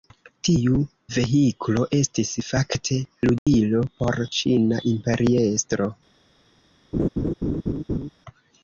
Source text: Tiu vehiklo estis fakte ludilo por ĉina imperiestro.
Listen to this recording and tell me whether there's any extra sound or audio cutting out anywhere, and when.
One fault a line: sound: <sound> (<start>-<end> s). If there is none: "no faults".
sound: dropout (3.4-3.5 s)
sound: laugh (6.9-8.1 s)